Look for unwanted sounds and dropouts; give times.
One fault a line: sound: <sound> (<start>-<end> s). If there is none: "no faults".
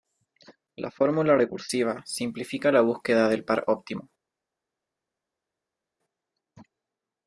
no faults